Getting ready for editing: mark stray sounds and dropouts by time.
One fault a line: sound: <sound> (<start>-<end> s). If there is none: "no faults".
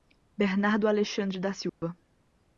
sound: dropout (1.7-1.8 s)